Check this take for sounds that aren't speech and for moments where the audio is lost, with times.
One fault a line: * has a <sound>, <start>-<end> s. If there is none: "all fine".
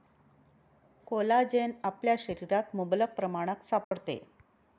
* has a dropout, 3.8-3.9 s